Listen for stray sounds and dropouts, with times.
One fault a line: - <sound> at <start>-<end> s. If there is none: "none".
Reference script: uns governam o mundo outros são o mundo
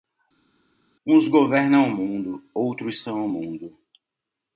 none